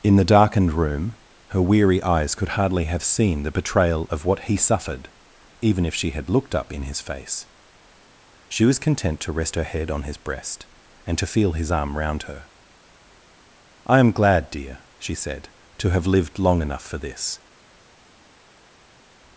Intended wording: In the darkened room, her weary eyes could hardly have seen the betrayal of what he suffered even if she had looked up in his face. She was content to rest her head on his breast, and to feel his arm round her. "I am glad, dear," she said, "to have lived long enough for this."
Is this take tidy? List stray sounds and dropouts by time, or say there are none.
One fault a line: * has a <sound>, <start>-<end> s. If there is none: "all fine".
all fine